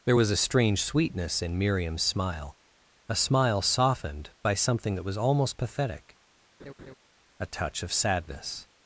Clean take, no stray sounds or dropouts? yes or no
no